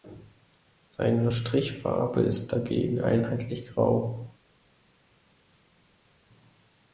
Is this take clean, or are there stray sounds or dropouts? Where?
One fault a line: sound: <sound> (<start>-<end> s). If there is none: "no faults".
no faults